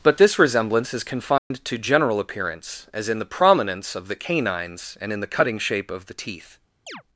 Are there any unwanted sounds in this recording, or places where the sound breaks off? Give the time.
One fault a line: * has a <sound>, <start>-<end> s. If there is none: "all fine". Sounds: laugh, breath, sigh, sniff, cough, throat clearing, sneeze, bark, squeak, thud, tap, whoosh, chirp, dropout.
* has a dropout, 1.4-1.5 s
* has a chirp, 6.9-7.0 s